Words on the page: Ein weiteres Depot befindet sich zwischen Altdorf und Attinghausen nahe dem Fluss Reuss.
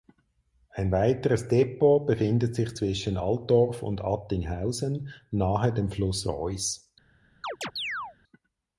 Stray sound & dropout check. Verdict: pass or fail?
fail